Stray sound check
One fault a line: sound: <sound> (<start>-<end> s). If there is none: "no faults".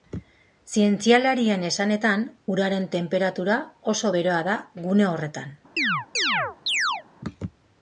sound: chirp (5.8-7.0 s)